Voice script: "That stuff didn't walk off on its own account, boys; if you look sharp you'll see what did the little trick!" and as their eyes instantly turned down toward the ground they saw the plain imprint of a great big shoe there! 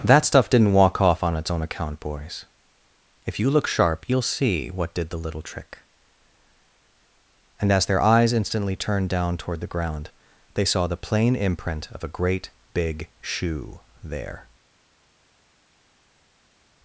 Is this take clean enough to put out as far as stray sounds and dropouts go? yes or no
yes